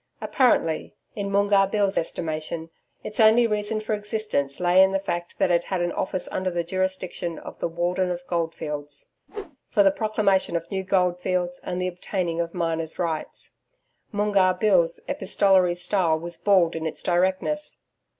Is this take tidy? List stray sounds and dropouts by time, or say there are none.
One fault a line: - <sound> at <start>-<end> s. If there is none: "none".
- whoosh at 9.3-9.6 s